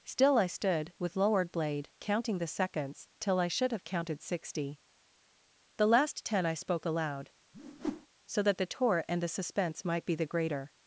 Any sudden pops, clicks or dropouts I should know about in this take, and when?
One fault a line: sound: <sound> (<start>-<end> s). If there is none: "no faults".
sound: whoosh (7.5-8.1 s)